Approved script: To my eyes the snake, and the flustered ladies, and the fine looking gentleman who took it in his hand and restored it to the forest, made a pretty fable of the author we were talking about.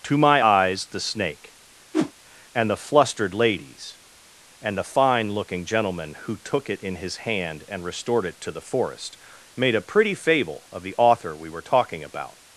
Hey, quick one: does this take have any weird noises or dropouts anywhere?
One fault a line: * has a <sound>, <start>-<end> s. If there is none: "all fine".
* has a whoosh, 1.9-2.1 s